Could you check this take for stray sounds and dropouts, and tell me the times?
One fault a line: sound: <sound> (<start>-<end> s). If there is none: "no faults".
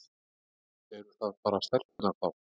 sound: dropout (1.9-2.0 s)